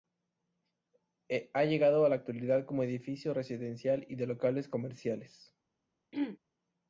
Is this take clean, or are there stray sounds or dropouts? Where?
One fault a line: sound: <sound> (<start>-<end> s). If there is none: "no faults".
sound: throat clearing (6.1-6.4 s)